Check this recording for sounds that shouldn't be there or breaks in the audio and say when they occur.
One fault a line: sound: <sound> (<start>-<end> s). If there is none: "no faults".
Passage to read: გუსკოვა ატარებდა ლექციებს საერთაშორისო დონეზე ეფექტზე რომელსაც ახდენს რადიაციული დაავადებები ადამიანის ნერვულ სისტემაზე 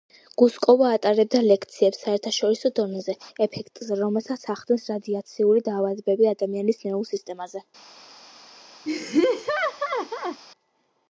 sound: laugh (8.9-10.4 s)